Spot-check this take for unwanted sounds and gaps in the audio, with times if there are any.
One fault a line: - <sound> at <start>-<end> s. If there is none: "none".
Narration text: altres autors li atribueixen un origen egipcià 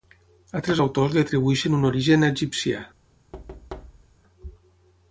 - thud at 3.3-4.2 s